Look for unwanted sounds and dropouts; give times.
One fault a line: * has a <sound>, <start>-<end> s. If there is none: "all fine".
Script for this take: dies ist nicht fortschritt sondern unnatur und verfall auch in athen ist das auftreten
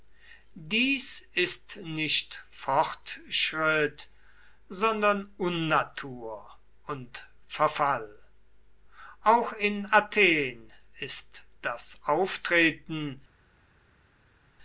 all fine